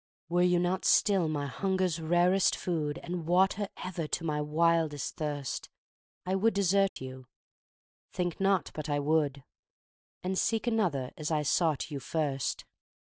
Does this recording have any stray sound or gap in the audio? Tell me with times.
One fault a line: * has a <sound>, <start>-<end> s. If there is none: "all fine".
* has a dropout, 6.9-7.0 s